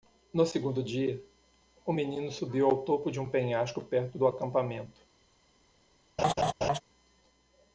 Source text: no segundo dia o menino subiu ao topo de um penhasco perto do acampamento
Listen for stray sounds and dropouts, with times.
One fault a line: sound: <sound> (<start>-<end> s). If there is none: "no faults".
sound: laugh (6.2-6.8 s)